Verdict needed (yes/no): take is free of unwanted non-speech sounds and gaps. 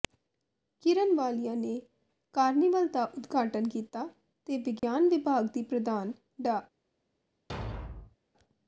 no